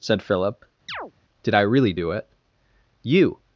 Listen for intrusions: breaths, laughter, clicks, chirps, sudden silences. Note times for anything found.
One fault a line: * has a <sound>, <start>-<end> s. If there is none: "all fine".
* has a chirp, 0.9-1.1 s